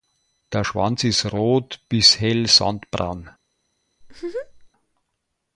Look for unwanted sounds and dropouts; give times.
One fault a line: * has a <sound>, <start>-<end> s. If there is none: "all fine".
* has a laugh, 4.0-4.7 s